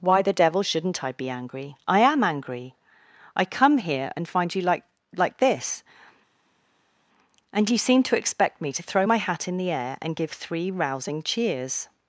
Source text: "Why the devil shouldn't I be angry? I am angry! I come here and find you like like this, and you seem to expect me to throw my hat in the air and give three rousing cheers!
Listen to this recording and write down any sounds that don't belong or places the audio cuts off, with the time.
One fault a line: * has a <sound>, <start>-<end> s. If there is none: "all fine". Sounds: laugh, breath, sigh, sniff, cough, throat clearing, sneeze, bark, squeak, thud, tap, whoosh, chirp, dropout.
all fine